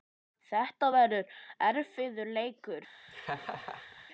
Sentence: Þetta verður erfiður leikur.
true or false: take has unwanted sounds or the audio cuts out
true